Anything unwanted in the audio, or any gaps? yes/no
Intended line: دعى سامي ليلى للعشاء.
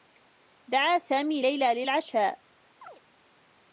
yes